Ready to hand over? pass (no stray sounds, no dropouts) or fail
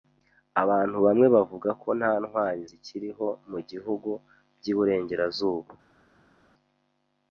pass